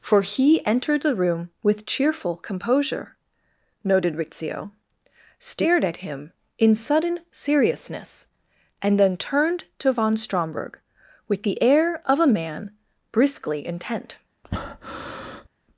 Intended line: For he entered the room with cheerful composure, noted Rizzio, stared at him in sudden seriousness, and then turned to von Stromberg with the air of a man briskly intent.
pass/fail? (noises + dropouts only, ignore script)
fail